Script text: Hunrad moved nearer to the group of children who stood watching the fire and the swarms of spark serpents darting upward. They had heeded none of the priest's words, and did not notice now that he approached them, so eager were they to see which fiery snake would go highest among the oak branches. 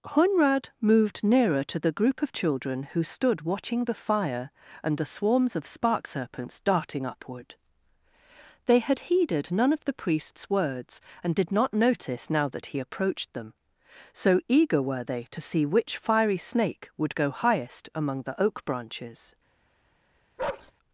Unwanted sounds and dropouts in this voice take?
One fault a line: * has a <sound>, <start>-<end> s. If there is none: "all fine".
* has a bark, 20.4-20.7 s